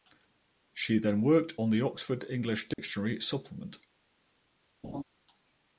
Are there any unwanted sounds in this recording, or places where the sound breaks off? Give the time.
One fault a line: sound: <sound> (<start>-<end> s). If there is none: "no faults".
sound: dropout (2.7-2.8 s)
sound: laugh (4.8-5.0 s)